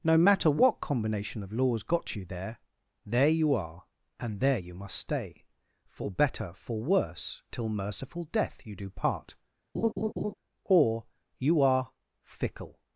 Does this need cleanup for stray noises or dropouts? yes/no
yes